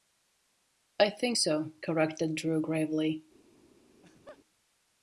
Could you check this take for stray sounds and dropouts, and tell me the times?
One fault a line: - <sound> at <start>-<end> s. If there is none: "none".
- laugh at 3.9-4.4 s